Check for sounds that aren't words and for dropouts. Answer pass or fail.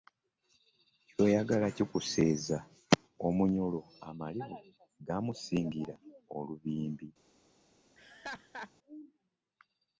fail